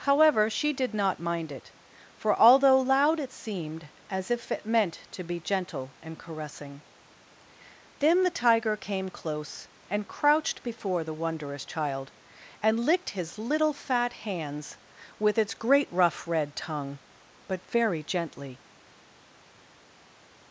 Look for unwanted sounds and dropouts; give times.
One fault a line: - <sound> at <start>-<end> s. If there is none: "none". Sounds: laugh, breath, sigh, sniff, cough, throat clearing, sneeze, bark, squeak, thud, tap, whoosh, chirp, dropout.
none